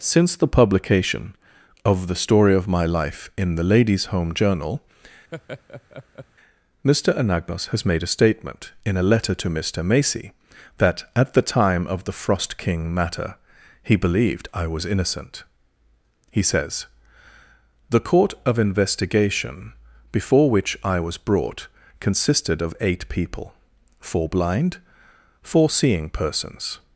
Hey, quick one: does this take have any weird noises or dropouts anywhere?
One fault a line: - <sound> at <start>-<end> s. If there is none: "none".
- laugh at 5.3-6.3 s